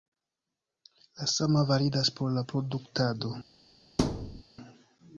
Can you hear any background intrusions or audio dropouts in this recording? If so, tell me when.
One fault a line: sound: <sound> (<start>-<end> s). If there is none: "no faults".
sound: thud (4.0-4.4 s)